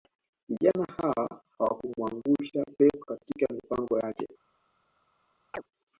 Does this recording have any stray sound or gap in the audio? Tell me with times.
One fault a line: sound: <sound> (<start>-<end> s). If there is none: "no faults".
sound: chirp (5.5-5.6 s)